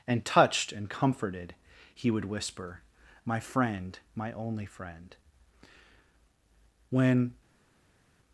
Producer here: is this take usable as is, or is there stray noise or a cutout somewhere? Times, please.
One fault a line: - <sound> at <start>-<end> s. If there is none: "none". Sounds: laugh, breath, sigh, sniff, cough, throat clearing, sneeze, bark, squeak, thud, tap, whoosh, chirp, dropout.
none